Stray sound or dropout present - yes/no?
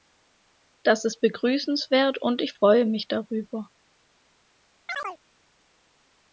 yes